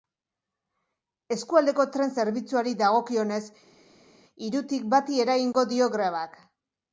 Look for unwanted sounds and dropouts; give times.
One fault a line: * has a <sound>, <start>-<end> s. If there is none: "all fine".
all fine